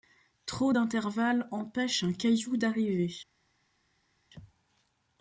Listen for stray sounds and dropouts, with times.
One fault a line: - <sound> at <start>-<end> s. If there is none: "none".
none